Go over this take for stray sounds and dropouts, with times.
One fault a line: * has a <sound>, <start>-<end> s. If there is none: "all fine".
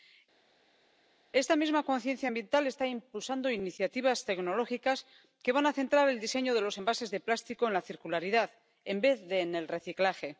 all fine